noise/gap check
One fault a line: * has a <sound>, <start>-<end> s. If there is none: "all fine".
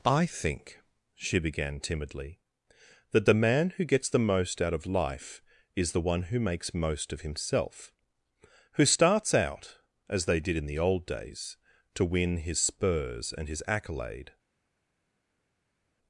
all fine